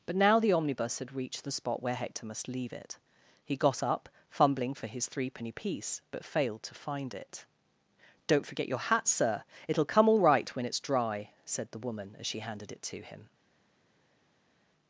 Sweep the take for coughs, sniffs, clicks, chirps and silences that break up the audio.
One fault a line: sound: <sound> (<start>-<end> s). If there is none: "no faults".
no faults